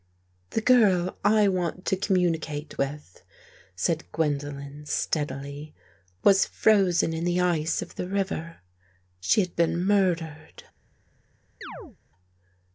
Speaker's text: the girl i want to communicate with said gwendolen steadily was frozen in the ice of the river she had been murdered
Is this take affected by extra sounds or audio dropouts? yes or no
yes